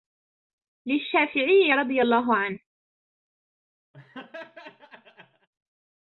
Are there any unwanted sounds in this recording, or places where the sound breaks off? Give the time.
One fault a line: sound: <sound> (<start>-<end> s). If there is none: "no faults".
sound: laugh (3.9-5.5 s)